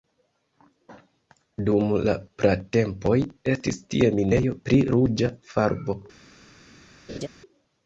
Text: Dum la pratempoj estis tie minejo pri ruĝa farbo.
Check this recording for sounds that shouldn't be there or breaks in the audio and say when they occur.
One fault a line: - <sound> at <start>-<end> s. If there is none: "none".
- laugh at 7.1-7.3 s